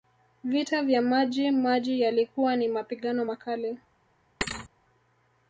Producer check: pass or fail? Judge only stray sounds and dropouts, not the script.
fail